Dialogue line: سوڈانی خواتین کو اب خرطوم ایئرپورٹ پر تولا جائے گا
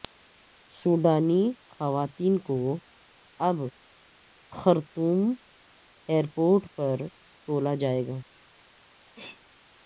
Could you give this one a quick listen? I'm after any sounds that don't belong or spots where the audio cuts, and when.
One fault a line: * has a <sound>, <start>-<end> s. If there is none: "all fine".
* has a sneeze, 9.1-9.4 s